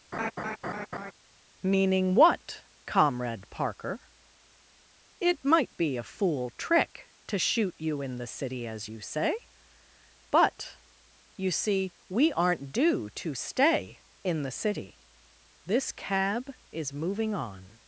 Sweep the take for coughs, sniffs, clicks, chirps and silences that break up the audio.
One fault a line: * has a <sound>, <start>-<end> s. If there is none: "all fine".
* has a laugh, 0.1-1.1 s